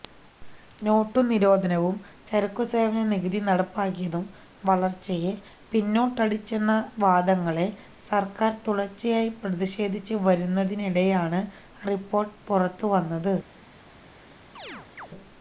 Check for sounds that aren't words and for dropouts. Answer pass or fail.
fail